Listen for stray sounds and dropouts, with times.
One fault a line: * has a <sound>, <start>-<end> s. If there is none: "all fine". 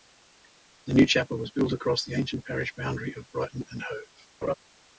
* has a laugh, 4.4-4.5 s